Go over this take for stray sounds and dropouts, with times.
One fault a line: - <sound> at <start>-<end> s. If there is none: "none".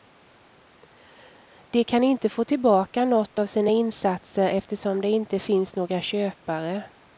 none